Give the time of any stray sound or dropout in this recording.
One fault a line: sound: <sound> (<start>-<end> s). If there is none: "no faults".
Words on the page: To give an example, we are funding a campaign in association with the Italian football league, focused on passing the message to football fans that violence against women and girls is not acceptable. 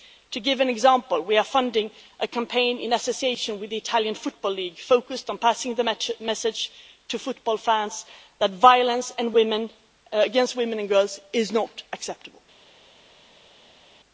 no faults